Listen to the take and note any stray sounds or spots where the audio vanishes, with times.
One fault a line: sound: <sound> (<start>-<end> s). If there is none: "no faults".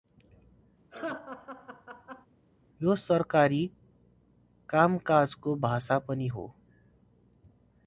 sound: laugh (0.9-2.3 s)